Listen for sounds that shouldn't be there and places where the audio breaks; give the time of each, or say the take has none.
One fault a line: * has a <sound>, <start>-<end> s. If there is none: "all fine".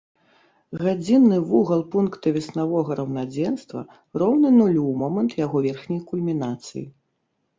all fine